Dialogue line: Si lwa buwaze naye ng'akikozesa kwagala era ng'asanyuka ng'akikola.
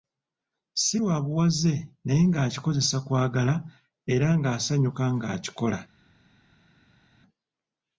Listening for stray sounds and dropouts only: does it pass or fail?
pass